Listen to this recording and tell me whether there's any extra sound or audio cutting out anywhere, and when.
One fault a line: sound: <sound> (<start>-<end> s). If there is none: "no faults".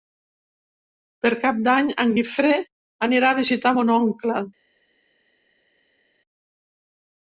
no faults